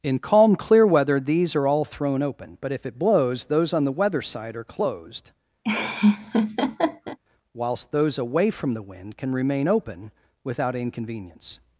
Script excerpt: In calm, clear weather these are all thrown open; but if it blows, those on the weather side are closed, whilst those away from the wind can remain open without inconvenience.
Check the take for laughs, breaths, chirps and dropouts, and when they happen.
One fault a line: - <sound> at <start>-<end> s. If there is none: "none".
- laugh at 5.6-7.2 s